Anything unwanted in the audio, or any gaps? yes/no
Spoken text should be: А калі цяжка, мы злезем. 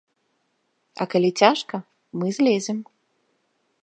no